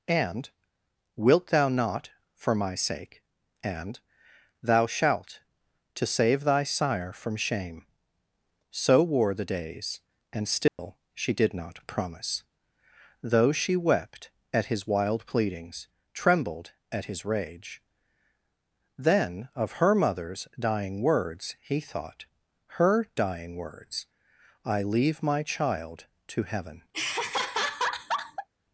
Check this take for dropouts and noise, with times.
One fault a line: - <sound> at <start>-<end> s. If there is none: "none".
- dropout at 10.7-10.8 s
- laugh at 26.9-28.5 s